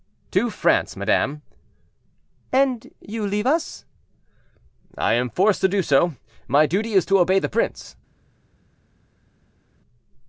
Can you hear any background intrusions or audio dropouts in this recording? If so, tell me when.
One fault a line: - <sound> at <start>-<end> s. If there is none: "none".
none